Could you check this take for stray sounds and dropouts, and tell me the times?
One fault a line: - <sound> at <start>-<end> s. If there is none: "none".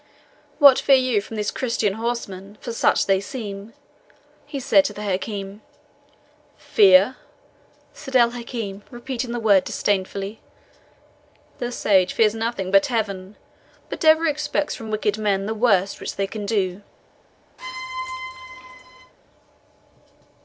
- squeak at 17.6-19.1 s